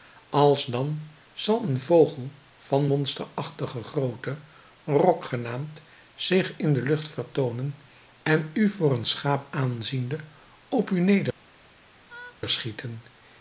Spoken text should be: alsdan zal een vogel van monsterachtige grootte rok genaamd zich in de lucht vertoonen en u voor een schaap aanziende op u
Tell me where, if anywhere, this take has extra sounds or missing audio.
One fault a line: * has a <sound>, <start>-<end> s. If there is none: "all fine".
* has a laugh, 12.1-12.4 s